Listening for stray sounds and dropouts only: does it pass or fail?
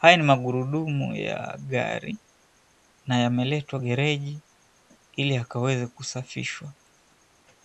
pass